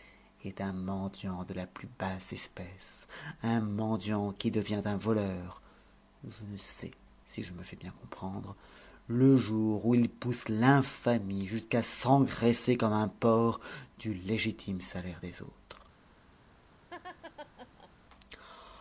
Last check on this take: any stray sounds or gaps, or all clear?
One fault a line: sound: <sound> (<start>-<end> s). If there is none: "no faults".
sound: laugh (16.9-17.9 s)